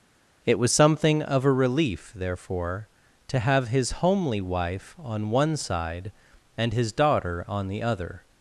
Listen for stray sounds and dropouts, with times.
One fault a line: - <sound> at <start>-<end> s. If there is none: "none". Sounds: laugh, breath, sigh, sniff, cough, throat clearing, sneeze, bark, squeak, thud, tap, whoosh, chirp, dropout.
none